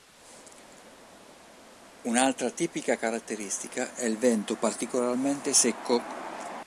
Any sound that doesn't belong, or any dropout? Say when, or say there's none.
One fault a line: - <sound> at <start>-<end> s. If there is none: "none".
none